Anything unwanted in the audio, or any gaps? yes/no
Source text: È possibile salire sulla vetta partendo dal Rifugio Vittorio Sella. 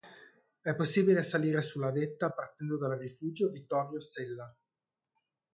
no